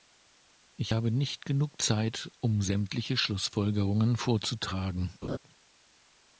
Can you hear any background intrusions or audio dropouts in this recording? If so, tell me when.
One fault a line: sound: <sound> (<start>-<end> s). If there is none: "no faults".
sound: laugh (5.2-5.4 s)